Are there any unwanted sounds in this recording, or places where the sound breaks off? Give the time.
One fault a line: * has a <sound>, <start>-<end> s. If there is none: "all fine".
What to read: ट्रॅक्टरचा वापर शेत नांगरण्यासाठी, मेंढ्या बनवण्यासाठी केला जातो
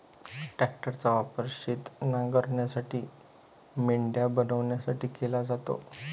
all fine